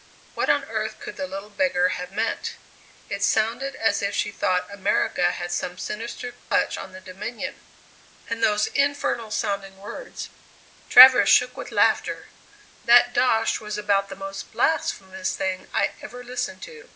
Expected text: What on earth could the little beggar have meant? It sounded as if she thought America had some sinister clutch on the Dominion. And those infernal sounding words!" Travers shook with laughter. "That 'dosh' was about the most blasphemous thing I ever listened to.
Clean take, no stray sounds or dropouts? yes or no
no